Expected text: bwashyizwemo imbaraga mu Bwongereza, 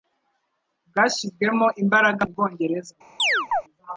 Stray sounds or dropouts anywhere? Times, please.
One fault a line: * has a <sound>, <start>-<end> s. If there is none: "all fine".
* has a chirp, 3.2-3.6 s